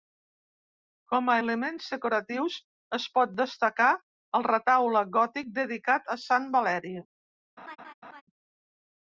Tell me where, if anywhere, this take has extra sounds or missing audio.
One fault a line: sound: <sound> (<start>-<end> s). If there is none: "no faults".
sound: laugh (7.6-8.2 s)